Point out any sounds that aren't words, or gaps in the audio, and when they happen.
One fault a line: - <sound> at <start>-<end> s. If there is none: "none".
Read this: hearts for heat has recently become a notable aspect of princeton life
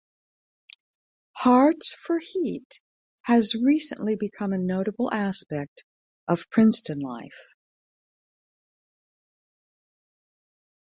none